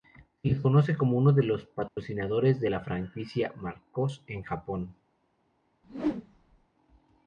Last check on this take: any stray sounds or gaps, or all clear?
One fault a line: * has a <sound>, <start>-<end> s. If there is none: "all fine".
* has a dropout, 1.9-2.0 s
* has a whoosh, 5.8-6.7 s